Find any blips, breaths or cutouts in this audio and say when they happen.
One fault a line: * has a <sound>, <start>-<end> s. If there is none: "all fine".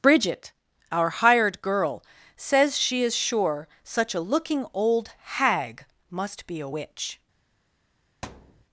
* has a thud, 8.2-8.7 s